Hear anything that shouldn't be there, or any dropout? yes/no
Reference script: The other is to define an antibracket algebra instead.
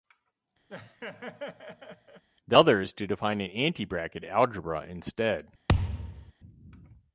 yes